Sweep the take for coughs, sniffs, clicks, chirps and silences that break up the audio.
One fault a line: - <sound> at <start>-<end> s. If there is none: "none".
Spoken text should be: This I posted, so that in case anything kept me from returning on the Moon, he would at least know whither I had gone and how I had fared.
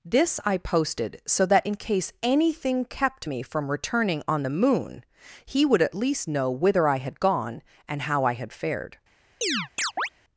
- chirp at 9.4-10.1 s